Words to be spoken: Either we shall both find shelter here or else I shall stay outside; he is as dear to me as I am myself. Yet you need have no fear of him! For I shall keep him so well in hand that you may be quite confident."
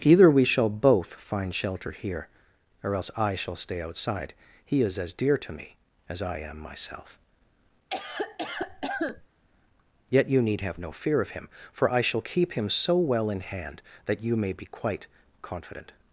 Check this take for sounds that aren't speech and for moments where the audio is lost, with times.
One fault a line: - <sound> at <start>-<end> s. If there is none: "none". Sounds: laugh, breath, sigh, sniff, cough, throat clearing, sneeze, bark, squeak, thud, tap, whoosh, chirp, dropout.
- cough at 7.9-9.3 s